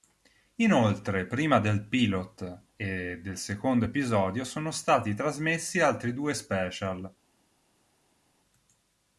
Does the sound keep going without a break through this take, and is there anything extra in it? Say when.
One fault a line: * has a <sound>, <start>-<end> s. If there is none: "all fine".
all fine